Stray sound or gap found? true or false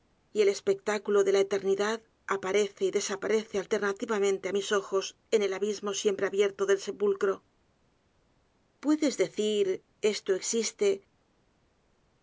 false